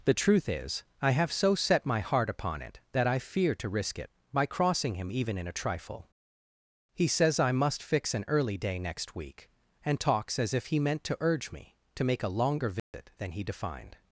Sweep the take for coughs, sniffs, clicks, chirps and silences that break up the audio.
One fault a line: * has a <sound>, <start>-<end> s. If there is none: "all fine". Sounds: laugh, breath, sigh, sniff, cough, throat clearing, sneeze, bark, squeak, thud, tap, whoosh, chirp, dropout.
* has a dropout, 12.8-12.9 s